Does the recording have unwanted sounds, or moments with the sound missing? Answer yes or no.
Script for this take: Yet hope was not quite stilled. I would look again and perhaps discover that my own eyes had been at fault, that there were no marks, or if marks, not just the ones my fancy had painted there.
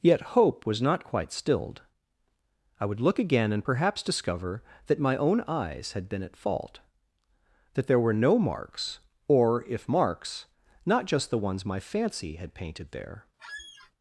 yes